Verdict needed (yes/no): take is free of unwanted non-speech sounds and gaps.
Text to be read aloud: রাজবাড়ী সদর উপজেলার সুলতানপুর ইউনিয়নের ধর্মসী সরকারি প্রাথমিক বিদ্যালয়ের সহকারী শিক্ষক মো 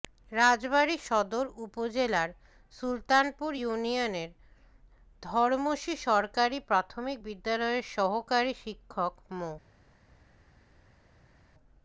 yes